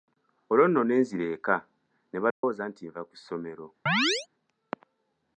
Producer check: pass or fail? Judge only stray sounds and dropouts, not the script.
fail